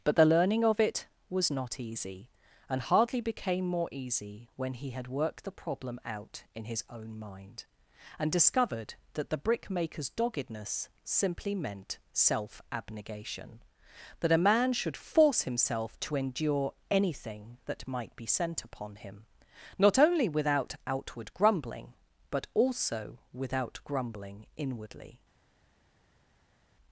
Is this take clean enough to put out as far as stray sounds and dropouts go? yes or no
yes